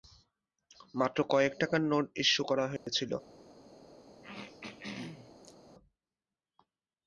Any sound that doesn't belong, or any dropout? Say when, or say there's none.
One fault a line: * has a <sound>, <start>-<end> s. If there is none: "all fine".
* has a dropout, 2.8-2.9 s
* has a throat clearing, 4.2-5.6 s